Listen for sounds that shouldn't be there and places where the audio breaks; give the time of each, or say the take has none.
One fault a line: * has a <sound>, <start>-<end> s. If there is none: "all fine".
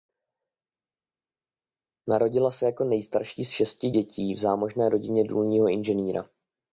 all fine